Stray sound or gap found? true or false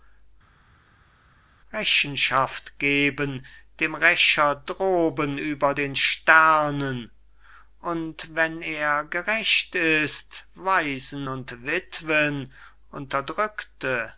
false